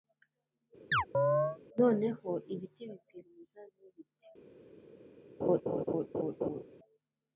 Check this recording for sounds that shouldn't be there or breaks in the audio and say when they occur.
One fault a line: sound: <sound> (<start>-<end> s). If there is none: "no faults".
sound: chirp (0.9-1.6 s)
sound: laugh (5.4-6.6 s)